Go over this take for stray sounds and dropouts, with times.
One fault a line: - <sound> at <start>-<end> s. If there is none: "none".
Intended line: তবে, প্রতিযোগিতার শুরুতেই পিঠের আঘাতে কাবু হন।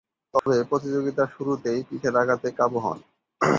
- dropout at 0.4-0.5 s